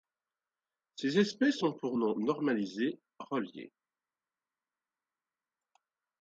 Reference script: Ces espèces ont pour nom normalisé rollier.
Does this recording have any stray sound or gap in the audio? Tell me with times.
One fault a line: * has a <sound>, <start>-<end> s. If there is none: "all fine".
all fine